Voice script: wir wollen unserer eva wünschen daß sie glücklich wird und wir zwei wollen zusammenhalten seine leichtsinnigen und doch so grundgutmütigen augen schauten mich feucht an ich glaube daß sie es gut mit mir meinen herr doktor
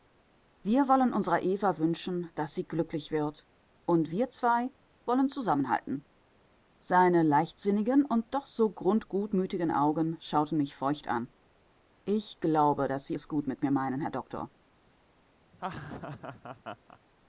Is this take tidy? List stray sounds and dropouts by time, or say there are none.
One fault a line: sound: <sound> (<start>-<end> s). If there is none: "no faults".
sound: laugh (15.5-17.0 s)